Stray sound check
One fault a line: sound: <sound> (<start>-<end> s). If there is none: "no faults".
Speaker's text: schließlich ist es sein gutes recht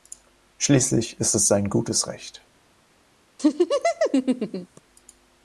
sound: laugh (3.4-4.8 s)